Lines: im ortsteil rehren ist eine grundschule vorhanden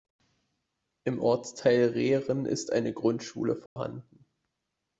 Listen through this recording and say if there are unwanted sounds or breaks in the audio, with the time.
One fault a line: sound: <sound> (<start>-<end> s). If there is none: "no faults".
sound: dropout (3.7-3.8 s)